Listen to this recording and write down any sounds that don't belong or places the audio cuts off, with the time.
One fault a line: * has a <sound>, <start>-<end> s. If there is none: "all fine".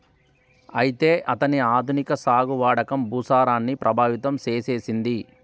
all fine